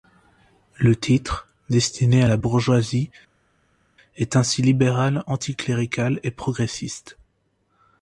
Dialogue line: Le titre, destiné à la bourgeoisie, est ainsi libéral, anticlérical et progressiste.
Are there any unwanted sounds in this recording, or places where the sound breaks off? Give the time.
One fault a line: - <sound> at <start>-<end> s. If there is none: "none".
none